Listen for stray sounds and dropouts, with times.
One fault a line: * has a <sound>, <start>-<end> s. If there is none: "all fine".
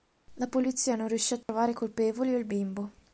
* has a dropout, 1.4-1.5 s